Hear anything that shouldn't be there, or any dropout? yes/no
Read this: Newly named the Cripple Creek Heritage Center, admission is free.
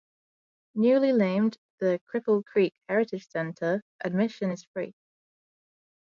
no